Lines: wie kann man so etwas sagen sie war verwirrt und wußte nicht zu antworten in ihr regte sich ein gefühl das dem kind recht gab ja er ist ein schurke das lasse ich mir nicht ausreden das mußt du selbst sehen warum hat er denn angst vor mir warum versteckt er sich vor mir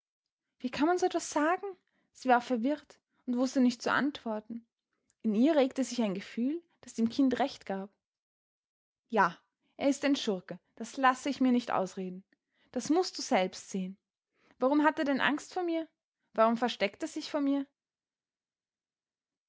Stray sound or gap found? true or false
false